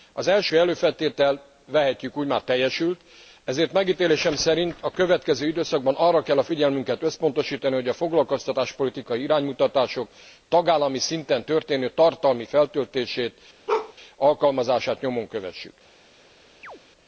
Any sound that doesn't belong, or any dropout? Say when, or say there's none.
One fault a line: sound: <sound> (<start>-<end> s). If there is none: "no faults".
sound: bark (13.7-13.9 s)
sound: chirp (16.6-16.8 s)